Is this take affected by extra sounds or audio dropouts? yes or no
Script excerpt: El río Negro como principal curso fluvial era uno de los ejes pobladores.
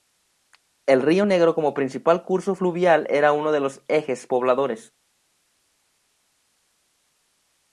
no